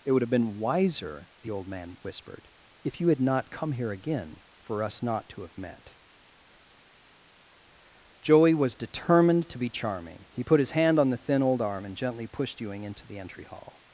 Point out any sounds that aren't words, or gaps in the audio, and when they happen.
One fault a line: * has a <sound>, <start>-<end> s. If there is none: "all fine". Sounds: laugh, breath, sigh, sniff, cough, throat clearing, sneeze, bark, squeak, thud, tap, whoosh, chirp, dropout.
all fine